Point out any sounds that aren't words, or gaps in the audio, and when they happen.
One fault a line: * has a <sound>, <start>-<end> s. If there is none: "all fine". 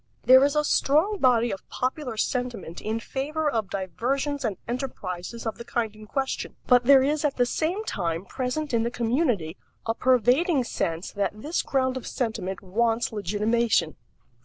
all fine